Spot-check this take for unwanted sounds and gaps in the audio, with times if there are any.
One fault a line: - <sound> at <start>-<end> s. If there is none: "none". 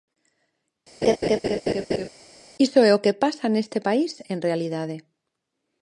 - laugh at 1.0-2.1 s